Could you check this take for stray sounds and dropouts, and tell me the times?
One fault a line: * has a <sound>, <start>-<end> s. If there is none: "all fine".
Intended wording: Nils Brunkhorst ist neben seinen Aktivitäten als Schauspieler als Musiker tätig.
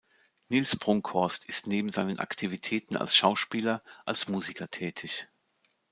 all fine